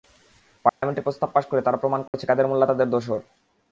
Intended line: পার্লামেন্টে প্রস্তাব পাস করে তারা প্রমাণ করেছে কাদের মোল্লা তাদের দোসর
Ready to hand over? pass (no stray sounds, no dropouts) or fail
fail